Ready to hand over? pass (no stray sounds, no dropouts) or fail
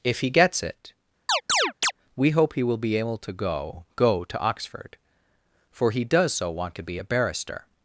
fail